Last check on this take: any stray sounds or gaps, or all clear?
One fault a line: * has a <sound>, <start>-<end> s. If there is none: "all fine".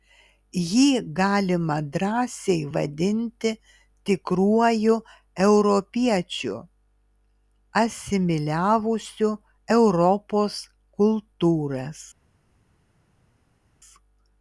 all fine